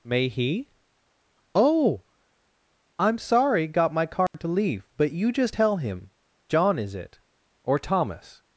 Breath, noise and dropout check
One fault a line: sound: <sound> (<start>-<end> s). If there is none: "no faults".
sound: dropout (4.3-4.3 s)